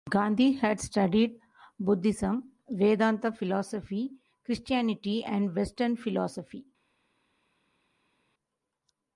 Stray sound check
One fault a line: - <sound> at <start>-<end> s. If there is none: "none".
none